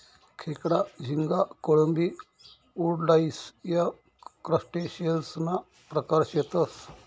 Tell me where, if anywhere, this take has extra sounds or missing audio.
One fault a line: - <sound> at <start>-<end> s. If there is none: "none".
none